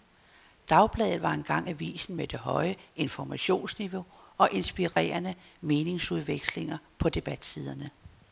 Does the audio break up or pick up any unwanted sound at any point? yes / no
yes